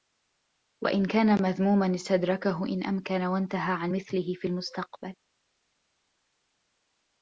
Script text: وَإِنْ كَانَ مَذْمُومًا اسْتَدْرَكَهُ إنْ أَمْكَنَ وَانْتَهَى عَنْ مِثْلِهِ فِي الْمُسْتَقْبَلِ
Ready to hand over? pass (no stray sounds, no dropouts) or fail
pass